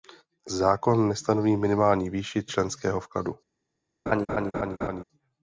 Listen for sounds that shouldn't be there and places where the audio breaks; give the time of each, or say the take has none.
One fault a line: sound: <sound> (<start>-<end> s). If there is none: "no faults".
sound: laugh (4.1-5.0 s)